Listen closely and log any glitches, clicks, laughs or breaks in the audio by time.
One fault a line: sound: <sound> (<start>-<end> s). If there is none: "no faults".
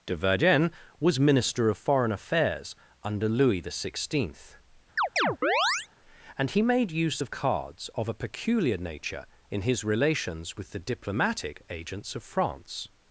sound: chirp (5.0-5.9 s)